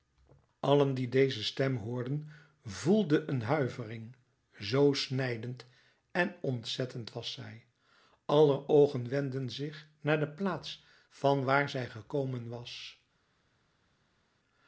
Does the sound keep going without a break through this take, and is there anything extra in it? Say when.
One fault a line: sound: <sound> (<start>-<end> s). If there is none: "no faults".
no faults